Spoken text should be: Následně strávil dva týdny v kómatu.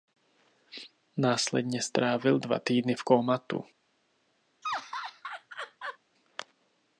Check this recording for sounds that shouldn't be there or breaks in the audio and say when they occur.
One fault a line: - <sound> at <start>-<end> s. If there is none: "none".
- laugh at 4.6-6.0 s